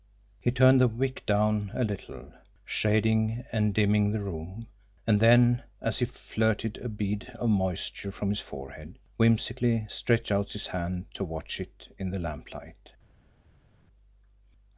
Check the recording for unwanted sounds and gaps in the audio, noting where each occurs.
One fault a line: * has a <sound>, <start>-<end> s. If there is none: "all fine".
all fine